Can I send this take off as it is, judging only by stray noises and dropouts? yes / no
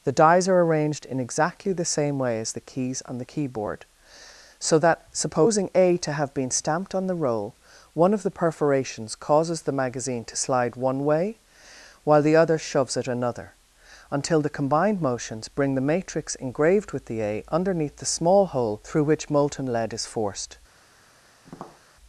no